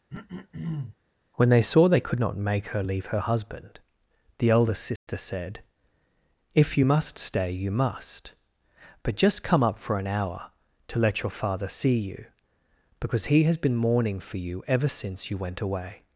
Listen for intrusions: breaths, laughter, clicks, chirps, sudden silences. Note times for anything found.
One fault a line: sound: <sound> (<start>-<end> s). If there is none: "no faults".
sound: throat clearing (0.1-1.0 s)
sound: dropout (5.0-5.1 s)